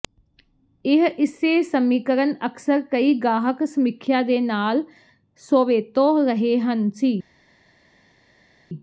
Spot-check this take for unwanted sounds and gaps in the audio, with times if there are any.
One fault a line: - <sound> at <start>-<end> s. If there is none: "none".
none